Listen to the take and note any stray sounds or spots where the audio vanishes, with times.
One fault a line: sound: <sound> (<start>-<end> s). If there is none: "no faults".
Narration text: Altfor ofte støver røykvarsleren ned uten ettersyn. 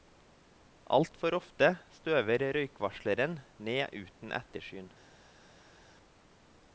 no faults